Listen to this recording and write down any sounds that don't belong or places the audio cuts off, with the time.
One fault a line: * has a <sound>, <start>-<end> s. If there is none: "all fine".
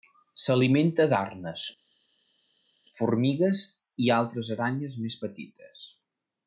all fine